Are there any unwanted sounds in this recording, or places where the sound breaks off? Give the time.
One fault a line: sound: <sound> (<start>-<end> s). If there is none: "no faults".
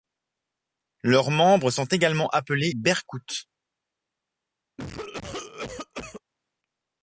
sound: cough (4.8-6.2 s)